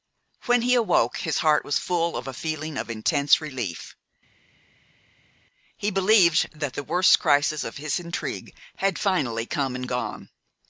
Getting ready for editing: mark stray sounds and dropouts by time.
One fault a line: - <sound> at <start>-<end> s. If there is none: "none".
none